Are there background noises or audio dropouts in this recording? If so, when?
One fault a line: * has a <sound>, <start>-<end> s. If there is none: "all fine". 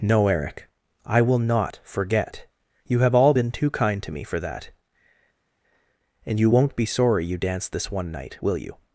all fine